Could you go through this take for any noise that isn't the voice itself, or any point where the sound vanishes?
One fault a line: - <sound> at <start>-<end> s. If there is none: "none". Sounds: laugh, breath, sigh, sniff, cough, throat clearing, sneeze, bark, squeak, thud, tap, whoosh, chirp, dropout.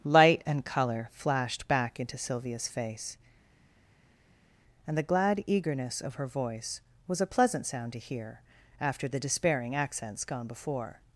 none